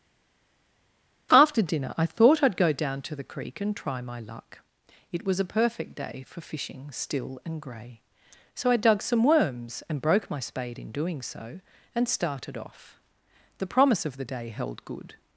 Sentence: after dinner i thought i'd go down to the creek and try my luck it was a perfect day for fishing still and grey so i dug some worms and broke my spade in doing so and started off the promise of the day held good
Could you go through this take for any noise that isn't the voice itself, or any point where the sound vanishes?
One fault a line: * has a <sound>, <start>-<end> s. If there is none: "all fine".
all fine